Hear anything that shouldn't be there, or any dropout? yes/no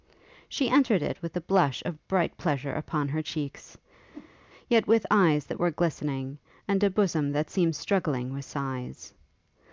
yes